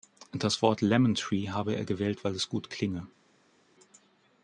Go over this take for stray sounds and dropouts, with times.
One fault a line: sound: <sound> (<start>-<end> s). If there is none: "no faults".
no faults